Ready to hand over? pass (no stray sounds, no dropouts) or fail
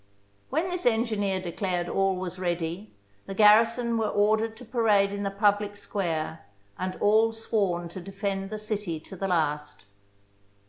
pass